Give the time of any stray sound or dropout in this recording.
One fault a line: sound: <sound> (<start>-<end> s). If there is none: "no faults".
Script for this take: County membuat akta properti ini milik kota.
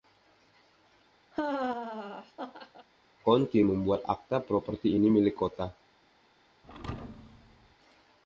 sound: laugh (1.3-2.9 s)
sound: thud (6.6-7.8 s)